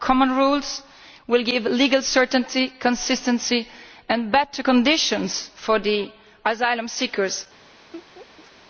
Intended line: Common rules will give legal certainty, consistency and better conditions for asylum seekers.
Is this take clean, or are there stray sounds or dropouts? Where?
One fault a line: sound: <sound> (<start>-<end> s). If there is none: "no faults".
sound: laugh (7.9-8.5 s)